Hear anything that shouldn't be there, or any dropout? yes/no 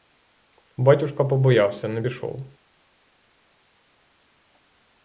no